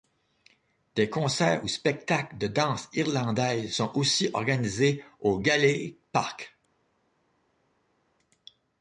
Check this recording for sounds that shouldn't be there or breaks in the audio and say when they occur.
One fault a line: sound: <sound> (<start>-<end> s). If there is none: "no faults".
no faults